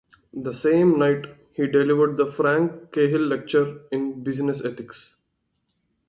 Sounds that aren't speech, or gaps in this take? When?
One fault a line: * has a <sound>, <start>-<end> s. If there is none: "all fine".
all fine